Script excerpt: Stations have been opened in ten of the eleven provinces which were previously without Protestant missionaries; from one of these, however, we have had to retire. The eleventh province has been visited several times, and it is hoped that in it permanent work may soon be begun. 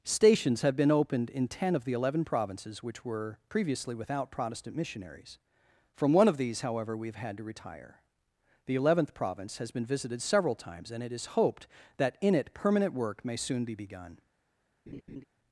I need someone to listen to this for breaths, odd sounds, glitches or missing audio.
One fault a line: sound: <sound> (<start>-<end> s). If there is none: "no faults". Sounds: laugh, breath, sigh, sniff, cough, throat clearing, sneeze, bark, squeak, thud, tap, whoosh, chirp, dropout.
sound: laugh (14.9-15.2 s)